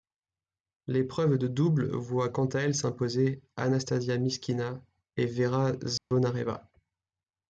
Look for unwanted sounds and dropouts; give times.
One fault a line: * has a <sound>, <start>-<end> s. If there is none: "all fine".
* has a dropout, 6.0-6.1 s